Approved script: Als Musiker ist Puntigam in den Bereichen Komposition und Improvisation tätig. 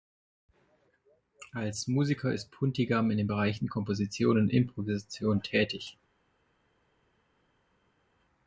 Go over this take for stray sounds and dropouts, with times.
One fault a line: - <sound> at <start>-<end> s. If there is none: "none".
none